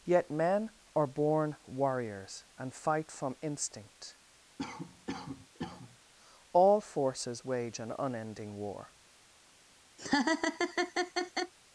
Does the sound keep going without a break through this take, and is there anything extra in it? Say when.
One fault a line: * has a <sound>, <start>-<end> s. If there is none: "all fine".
* has a cough, 4.6-6.0 s
* has a laugh, 10.0-11.5 s